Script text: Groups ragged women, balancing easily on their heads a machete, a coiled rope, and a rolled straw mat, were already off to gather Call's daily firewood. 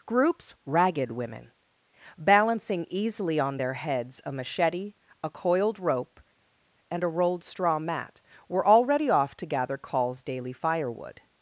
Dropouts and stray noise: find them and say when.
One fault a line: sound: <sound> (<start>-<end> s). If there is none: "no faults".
no faults